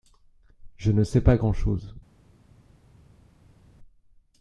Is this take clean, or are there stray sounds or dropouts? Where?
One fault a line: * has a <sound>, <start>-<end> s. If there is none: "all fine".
all fine